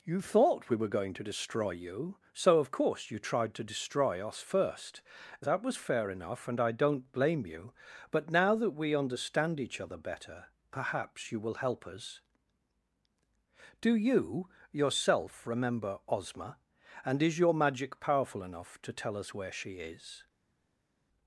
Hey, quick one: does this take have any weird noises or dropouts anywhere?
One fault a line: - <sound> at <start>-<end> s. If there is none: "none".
none